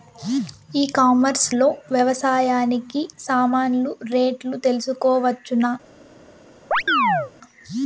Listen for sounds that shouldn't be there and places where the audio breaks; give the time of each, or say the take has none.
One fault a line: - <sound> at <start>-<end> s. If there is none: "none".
- chirp at 6.7-7.3 s